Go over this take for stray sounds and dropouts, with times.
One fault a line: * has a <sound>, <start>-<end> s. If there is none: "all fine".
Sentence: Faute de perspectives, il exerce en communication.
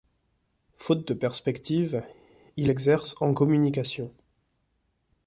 all fine